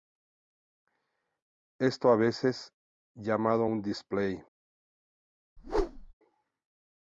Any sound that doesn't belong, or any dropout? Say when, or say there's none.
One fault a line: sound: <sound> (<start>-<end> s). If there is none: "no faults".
sound: whoosh (5.6-6.1 s)